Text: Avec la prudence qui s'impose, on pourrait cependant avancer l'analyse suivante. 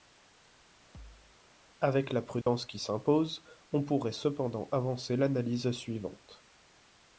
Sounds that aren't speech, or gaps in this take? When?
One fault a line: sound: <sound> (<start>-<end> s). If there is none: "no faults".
sound: thud (0.9-1.4 s)
sound: dropout (2.4-2.5 s)